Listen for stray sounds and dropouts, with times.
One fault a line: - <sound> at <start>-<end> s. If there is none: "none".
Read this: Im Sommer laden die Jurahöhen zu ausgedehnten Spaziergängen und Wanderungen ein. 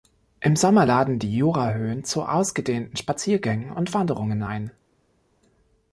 none